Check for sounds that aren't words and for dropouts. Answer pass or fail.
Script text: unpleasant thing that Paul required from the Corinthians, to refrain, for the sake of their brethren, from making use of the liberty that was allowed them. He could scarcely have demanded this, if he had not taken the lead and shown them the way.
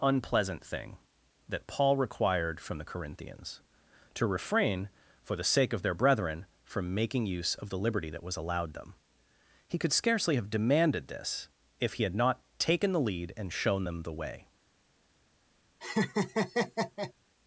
fail